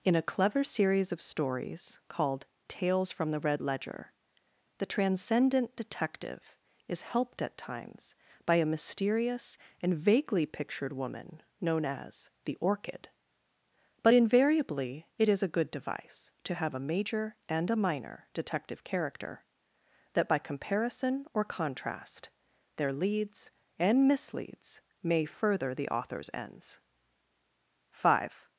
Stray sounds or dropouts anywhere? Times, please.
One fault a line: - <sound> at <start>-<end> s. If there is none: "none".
none